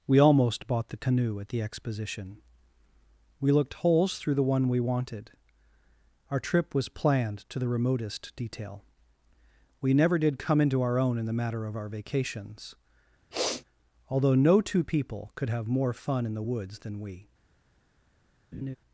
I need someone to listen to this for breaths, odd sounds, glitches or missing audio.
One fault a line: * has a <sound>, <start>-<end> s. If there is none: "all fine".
* has a sniff, 13.3-13.6 s
* has a laugh, 18.5-18.8 s